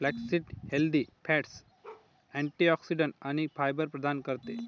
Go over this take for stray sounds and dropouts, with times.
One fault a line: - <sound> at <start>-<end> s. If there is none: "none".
- bark at 1.8-2.1 s